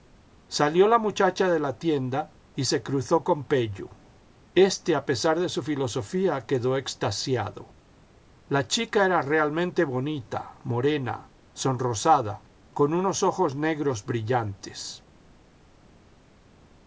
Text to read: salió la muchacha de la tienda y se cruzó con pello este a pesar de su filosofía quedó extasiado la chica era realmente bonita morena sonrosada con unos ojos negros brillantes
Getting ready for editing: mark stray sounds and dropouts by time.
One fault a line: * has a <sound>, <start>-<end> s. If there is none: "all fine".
all fine